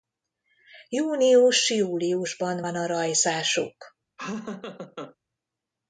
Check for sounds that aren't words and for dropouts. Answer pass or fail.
fail